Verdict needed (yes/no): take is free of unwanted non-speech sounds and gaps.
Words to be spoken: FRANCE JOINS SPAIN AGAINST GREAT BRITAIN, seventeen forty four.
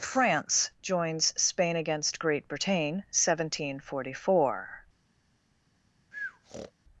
no